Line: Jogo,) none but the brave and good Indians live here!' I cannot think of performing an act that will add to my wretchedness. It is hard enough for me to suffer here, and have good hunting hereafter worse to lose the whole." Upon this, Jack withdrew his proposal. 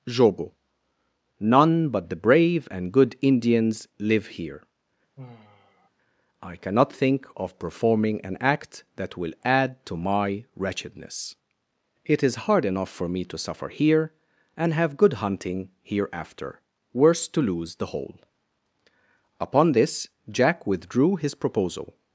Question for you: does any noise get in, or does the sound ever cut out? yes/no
yes